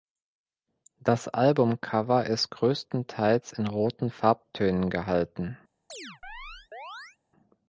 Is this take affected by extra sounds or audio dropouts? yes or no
yes